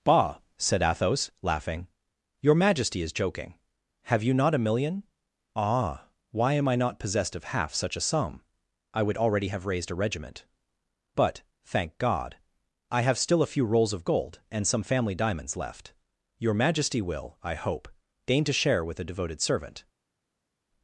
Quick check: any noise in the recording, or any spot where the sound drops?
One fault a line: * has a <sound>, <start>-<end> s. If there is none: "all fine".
all fine